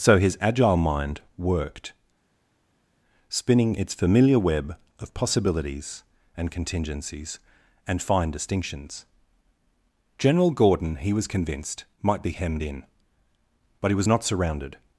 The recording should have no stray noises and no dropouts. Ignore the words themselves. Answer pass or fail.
pass